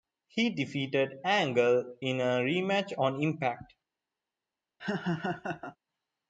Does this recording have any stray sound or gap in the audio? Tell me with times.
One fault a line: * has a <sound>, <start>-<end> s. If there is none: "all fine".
* has a laugh, 4.8-5.8 s